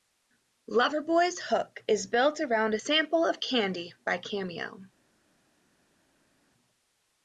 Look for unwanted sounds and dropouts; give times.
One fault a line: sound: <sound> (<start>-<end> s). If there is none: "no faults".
no faults